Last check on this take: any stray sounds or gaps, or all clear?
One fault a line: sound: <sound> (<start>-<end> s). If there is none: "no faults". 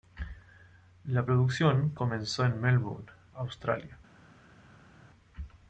no faults